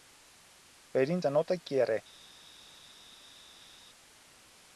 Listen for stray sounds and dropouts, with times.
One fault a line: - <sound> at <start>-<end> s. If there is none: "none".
none